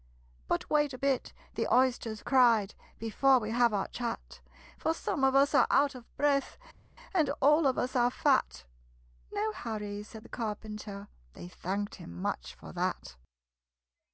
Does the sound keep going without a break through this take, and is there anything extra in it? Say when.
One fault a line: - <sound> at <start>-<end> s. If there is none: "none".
none